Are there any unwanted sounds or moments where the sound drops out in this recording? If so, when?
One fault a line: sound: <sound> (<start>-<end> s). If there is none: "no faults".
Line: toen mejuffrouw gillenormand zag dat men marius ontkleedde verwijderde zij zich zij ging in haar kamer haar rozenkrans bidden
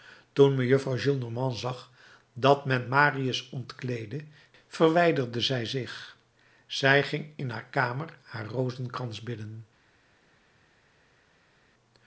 no faults